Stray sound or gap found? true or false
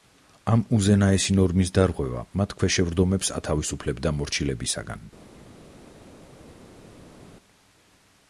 false